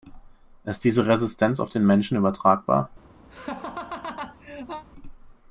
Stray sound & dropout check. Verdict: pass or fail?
fail